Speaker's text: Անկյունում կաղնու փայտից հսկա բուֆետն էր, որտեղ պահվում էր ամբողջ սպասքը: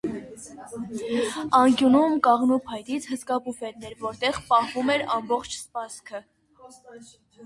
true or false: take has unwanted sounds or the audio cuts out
false